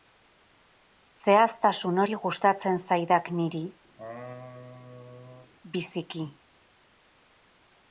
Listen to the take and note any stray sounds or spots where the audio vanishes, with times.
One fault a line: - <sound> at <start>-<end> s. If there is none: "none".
- laugh at 4.0-5.5 s